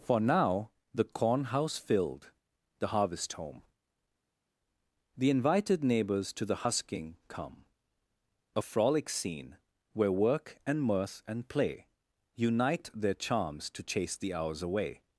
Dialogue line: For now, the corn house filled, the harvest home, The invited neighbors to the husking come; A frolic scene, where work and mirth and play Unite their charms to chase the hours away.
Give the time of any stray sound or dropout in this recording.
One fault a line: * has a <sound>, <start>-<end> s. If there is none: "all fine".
all fine